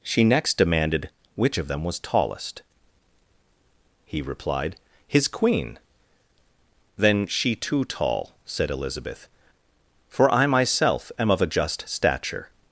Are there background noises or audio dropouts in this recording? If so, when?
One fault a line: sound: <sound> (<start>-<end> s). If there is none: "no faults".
no faults